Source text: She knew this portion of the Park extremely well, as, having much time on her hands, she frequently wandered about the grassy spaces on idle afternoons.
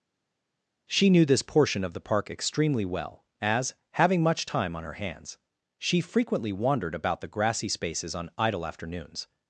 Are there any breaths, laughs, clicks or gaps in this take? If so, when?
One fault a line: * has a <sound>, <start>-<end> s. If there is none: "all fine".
all fine